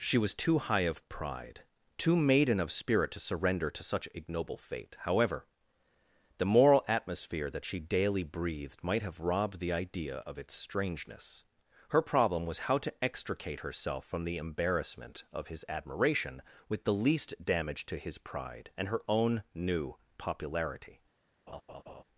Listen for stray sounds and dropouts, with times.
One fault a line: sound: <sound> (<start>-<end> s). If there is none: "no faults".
sound: laugh (21.5-22.0 s)